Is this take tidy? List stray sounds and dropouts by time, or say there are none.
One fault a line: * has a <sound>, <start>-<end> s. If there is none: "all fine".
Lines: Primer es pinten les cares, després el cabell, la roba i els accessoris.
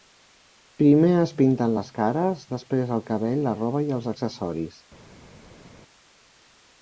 all fine